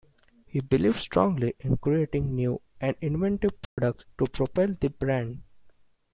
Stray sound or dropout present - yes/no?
yes